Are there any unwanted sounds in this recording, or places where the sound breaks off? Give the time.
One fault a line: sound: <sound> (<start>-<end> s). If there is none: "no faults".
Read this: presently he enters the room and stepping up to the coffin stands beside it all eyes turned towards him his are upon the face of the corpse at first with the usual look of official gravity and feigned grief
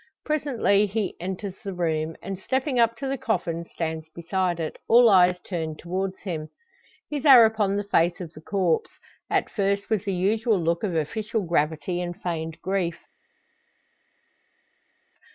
no faults